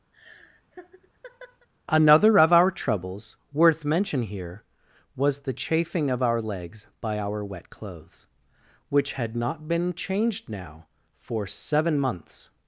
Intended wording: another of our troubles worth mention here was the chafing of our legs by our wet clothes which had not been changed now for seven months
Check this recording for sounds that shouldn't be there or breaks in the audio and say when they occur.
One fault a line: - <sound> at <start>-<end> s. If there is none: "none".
- laugh at 0.1-1.7 s